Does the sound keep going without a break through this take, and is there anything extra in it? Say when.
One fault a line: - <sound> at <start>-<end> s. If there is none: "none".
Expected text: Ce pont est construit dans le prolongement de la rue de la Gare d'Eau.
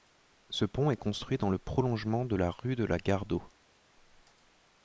none